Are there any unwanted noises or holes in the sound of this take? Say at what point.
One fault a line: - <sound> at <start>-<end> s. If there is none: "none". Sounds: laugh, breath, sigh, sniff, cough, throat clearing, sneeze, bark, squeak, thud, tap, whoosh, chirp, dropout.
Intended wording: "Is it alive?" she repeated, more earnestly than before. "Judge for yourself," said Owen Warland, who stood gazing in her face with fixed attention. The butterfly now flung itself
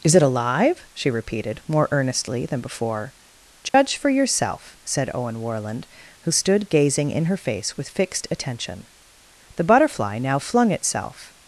- dropout at 3.7-3.7 s